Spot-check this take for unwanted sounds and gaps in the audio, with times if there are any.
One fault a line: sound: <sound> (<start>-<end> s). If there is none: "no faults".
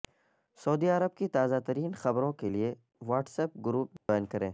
sound: dropout (4.0-4.1 s)